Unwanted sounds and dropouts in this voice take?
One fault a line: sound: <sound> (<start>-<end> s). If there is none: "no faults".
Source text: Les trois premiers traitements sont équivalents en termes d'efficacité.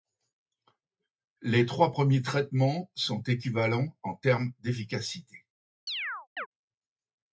sound: chirp (5.9-6.5 s)